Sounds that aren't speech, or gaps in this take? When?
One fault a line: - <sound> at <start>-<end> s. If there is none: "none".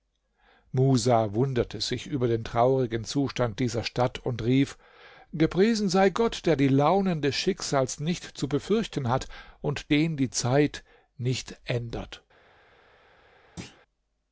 - thud at 13.6-13.8 s